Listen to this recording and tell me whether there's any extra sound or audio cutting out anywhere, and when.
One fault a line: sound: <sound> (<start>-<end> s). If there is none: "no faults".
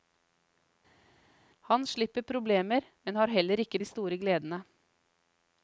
no faults